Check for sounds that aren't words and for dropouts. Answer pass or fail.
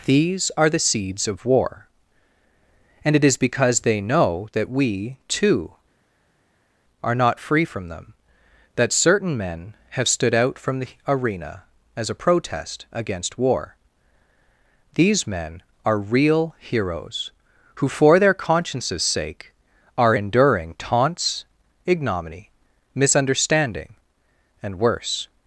pass